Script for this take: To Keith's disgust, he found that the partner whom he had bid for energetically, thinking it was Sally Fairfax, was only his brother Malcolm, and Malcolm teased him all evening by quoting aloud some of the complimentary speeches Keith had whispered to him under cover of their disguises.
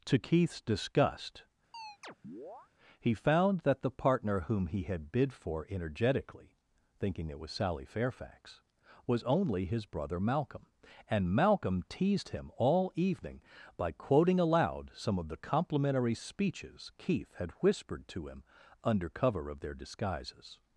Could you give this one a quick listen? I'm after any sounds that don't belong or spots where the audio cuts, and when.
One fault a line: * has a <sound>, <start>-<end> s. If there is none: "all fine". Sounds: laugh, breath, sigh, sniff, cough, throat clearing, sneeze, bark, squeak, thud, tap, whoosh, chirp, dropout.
* has a chirp, 1.7-2.7 s